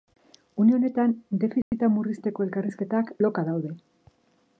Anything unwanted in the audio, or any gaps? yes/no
yes